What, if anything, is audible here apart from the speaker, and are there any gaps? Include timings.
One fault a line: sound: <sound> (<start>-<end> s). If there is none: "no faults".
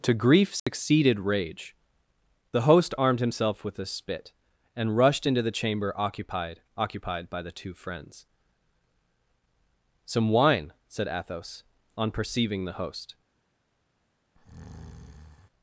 sound: dropout (0.6-0.7 s)
sound: breath (14.3-15.5 s)